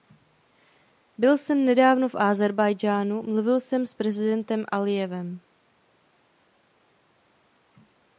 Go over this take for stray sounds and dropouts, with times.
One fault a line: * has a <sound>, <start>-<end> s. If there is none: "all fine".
all fine